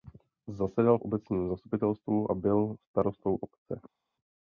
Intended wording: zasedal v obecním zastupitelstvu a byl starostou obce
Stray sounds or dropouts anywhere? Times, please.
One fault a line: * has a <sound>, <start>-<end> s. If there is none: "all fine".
all fine